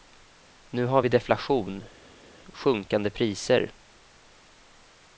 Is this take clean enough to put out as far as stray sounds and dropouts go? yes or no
yes